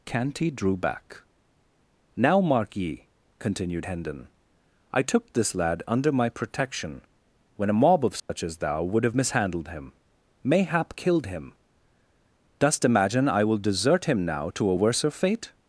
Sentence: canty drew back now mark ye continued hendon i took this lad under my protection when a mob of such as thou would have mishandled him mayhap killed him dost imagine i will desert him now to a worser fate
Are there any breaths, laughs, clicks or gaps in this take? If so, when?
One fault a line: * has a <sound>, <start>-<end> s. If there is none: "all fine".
* has a dropout, 8.2-8.3 s